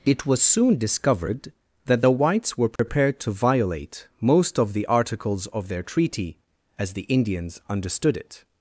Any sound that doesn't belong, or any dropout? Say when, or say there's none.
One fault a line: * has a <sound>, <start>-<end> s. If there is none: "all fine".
* has a dropout, 2.8-2.8 s